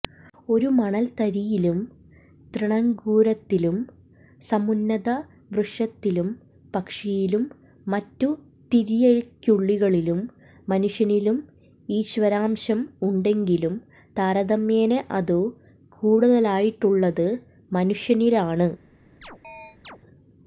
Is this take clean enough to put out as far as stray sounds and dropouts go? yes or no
no